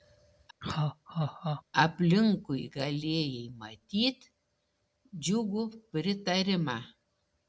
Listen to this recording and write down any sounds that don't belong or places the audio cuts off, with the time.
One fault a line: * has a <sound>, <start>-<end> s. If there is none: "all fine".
* has a laugh, 0.6-1.6 s